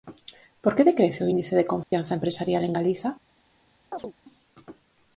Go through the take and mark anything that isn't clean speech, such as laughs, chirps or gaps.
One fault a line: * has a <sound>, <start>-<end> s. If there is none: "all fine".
* has a dropout, 1.8-1.9 s
* has a chirp, 3.9-4.1 s